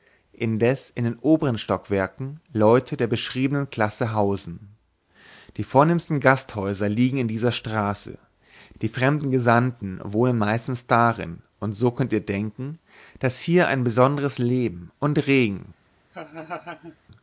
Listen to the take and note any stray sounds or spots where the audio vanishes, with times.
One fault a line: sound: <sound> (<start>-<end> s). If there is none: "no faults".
sound: laugh (16.1-17.0 s)